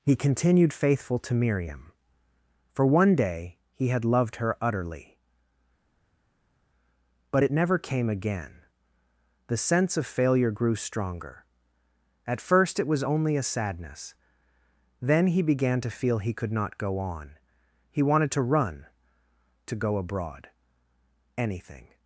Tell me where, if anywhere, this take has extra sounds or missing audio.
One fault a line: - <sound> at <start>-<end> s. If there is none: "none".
none